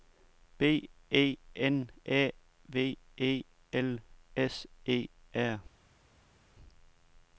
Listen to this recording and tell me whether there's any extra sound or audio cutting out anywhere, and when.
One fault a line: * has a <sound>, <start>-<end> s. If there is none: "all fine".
all fine